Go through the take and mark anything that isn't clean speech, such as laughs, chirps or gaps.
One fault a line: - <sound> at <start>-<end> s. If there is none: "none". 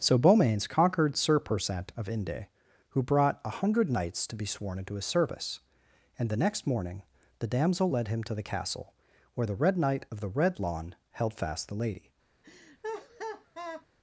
- laugh at 12.4-13.9 s